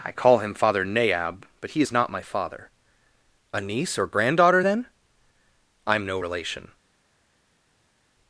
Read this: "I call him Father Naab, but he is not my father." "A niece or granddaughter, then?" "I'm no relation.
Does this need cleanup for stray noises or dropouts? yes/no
no